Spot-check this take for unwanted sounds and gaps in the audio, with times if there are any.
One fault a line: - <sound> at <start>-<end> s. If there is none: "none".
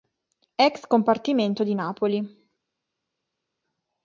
none